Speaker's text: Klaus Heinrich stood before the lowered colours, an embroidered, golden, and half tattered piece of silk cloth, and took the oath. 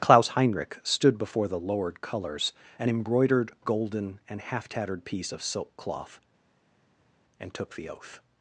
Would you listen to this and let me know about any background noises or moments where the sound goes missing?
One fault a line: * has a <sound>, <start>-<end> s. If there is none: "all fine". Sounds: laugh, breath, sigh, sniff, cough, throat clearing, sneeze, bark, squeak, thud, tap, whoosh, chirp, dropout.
all fine